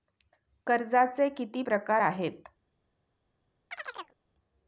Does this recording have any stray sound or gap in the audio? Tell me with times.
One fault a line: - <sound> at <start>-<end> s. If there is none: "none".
- chirp at 3.7-4.2 s